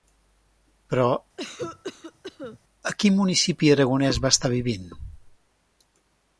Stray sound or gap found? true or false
true